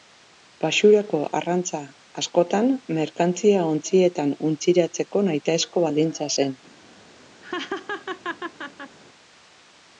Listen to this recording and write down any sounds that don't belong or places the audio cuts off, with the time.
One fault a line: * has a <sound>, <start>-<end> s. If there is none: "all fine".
* has a laugh, 7.4-9.0 s